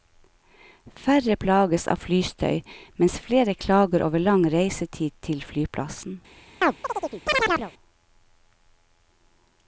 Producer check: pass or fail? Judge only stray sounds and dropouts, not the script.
fail